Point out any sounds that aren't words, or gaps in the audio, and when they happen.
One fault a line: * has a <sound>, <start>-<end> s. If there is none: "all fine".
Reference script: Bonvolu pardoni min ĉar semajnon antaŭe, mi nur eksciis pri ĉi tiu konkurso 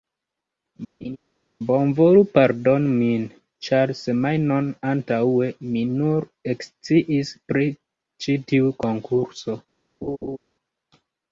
* has a laugh, 1.0-1.2 s
* has a laugh, 10.0-10.4 s